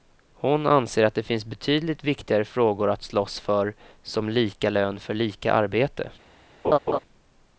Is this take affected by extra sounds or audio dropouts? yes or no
yes